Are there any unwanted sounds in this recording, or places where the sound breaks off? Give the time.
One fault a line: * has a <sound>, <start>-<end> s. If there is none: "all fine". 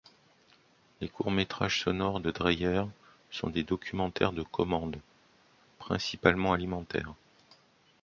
all fine